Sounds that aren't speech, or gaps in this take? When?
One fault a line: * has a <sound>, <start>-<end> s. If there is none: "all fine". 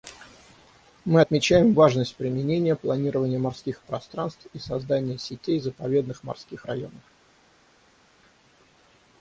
all fine